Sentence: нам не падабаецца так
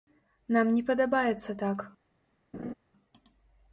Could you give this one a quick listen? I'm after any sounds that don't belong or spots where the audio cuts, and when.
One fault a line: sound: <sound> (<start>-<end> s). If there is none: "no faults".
sound: laugh (2.5-2.7 s)